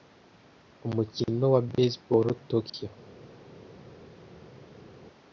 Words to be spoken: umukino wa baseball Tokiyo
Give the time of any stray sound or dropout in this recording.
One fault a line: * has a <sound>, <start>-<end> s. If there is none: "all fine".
all fine